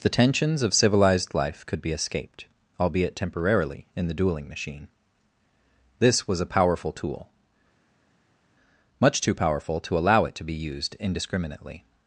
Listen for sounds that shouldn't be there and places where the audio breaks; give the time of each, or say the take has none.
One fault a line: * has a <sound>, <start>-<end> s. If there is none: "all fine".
all fine